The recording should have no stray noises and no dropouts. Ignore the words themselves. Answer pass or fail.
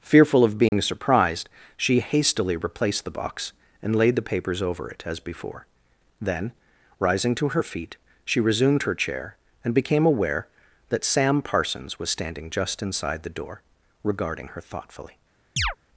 fail